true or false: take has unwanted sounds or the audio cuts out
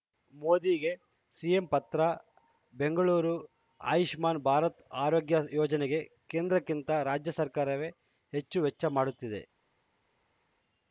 false